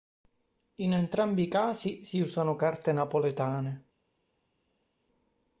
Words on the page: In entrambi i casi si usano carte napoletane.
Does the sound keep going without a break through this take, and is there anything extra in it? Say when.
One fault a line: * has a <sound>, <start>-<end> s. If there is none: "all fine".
all fine